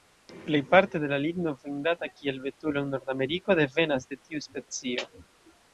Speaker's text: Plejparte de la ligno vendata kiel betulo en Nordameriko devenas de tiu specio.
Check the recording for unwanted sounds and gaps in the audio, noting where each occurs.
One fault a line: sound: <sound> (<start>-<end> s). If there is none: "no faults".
no faults